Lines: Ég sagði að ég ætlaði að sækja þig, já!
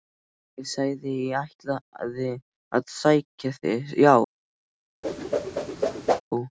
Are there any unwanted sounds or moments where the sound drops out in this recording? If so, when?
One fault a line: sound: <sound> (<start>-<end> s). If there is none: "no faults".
sound: whoosh (5.0-6.2 s)